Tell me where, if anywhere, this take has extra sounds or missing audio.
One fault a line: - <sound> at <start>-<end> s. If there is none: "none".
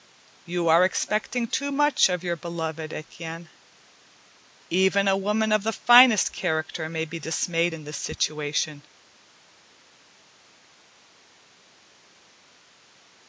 none